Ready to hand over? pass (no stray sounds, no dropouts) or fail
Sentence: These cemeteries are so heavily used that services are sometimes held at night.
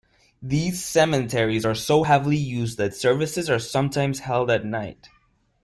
pass